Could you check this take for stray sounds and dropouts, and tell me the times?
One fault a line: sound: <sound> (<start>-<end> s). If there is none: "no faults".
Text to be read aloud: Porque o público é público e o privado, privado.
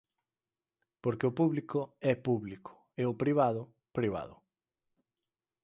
no faults